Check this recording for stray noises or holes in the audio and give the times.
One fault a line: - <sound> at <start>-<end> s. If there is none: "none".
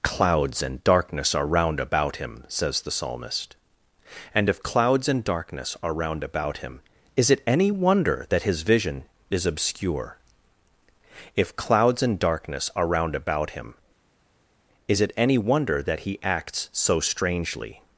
none